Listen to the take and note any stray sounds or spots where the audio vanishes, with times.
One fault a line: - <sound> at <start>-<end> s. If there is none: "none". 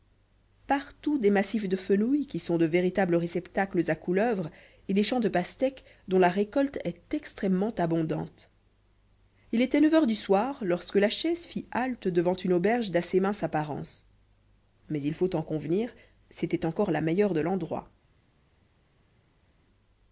none